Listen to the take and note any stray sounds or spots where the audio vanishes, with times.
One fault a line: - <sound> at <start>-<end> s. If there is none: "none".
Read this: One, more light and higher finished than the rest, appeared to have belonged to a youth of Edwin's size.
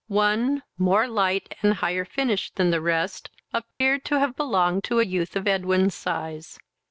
- dropout at 3.7-3.8 s